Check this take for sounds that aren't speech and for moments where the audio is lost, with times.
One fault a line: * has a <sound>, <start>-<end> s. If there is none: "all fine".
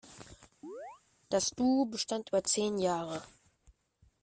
* has a chirp, 0.6-1.0 s